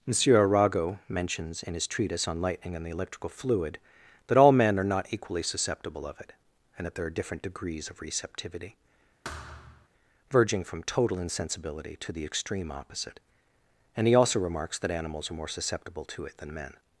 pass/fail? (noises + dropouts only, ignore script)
fail